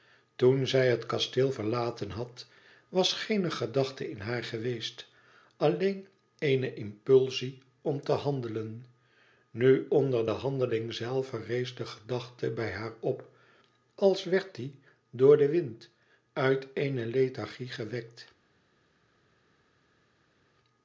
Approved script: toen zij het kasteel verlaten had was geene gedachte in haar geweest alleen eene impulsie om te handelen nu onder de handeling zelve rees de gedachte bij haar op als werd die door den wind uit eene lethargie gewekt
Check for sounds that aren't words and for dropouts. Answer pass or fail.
pass